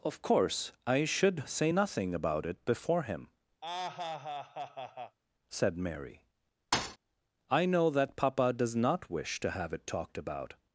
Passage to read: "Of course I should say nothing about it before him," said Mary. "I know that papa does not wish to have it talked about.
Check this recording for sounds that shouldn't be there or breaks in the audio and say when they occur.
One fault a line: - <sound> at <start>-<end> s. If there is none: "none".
- laugh at 3.6-5.2 s
- thud at 6.7-7.0 s